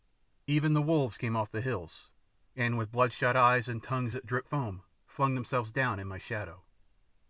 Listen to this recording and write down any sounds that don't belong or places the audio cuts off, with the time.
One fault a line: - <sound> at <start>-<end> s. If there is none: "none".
none